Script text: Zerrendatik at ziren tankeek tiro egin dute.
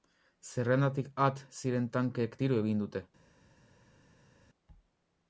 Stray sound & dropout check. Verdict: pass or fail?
pass